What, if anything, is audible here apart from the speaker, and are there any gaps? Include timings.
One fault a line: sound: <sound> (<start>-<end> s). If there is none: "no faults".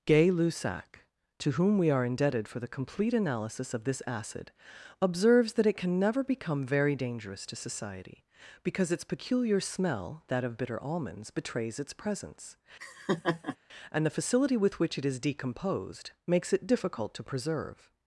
sound: laugh (12.8-13.6 s)